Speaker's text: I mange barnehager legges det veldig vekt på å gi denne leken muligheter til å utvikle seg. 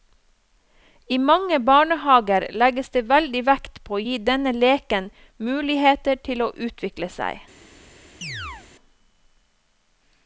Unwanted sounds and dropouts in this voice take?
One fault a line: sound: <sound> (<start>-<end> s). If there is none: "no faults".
sound: chirp (8.2-8.7 s)